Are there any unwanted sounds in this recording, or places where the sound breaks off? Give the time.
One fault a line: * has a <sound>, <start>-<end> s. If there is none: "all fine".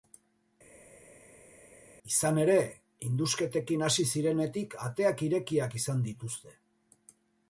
all fine